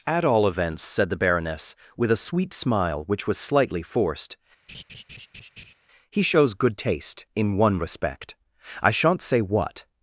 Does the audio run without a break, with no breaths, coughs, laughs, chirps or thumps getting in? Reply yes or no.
no